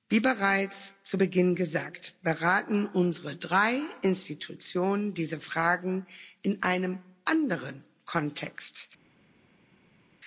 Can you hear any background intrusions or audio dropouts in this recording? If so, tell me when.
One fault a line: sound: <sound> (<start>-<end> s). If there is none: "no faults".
no faults